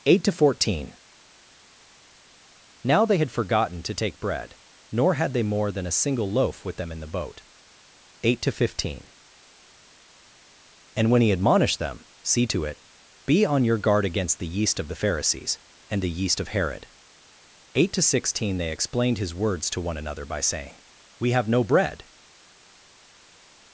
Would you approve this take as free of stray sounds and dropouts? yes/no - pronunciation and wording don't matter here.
yes